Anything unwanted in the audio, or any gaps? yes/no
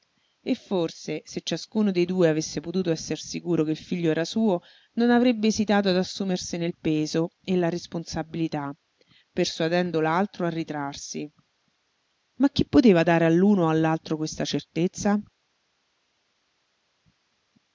no